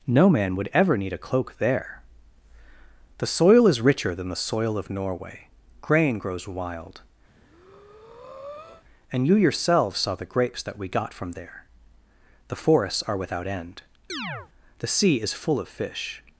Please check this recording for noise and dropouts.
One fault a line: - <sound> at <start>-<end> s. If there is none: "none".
- breath at 7.3-8.8 s
- chirp at 14.1-14.5 s